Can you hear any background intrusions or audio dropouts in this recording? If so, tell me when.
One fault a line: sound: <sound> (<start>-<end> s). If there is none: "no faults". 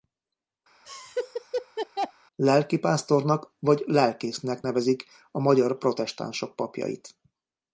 sound: laugh (0.8-2.1 s)